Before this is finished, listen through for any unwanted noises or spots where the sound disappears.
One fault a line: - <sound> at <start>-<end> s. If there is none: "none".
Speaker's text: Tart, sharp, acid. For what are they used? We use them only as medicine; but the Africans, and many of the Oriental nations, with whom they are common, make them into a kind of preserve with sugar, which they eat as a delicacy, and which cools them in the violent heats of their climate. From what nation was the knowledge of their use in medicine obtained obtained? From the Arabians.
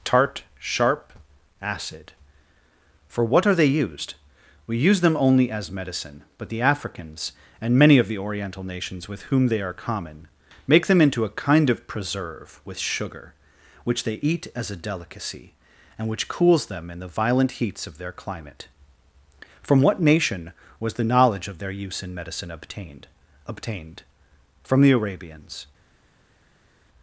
none